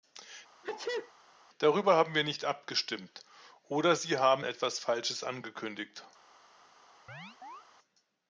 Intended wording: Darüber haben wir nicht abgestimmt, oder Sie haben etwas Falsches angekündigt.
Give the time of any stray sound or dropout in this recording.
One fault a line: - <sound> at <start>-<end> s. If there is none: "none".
- sneeze at 0.6-1.1 s
- chirp at 7.1-7.6 s